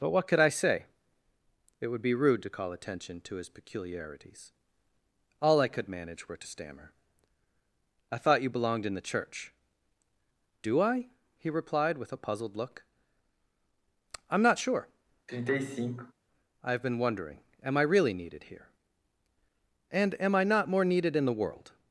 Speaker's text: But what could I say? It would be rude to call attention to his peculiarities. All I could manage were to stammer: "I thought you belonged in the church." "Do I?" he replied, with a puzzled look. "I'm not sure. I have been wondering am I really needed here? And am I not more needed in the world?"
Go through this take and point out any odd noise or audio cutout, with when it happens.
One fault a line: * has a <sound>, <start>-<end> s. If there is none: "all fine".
* has a sigh, 15.3-16.1 s